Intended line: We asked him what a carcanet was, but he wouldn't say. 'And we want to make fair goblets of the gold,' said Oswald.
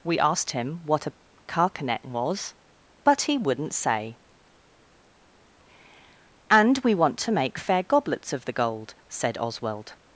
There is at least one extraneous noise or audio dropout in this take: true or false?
false